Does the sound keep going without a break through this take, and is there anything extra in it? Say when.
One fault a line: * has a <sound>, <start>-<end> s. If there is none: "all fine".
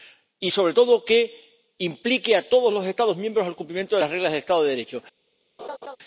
* has a laugh, 5.6-6.0 s